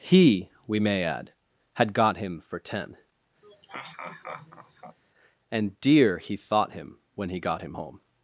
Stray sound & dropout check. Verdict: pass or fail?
fail